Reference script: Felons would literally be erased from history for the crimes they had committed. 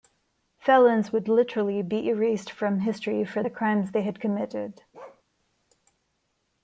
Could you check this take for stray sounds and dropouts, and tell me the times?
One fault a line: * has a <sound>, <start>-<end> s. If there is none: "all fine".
* has a bark, 4.9-5.2 s